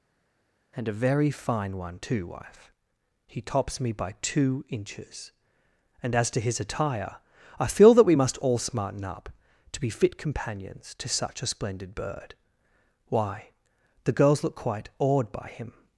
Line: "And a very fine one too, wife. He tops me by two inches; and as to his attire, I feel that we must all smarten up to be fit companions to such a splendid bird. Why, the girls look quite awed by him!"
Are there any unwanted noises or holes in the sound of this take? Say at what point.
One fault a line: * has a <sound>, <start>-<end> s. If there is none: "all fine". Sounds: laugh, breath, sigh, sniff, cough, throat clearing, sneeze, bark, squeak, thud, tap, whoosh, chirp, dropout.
all fine